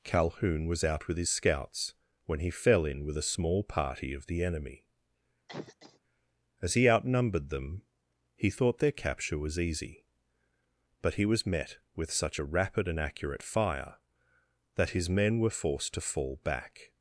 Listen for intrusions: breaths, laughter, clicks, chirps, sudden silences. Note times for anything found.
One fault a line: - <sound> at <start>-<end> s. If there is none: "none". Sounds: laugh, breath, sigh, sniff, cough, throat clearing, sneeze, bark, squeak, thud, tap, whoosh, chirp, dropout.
- cough at 5.5-6.0 s